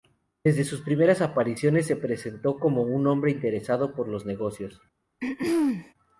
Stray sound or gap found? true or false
true